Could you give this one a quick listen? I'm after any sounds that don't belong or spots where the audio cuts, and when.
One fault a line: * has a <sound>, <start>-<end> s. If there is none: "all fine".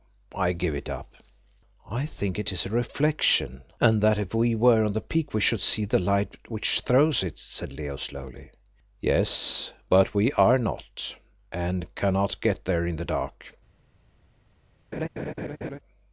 * has a laugh, 14.9-15.8 s